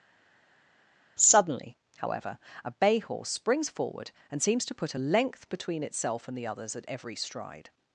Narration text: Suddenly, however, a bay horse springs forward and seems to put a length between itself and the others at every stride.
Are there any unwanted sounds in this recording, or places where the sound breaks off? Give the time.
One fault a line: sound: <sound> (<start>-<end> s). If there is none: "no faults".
no faults